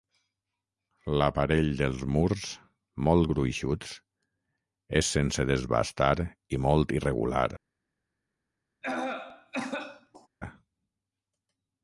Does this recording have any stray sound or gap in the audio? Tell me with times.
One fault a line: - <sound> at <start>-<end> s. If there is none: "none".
- cough at 8.8-10.3 s